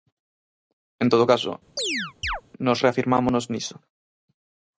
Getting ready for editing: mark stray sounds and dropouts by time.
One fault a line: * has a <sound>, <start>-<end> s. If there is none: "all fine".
* has a chirp, 1.8-2.4 s